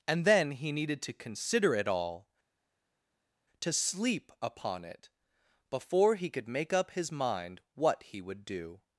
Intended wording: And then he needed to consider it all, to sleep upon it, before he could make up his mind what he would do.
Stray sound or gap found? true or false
false